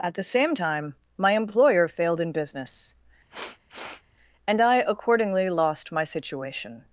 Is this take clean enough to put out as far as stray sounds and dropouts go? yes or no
no